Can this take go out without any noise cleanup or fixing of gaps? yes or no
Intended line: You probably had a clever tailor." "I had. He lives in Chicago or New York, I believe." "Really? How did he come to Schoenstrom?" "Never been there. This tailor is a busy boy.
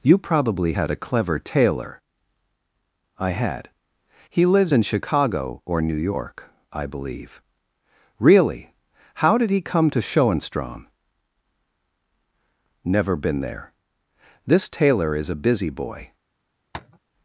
no